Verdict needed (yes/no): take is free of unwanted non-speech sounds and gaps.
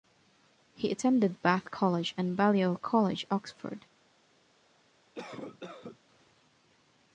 no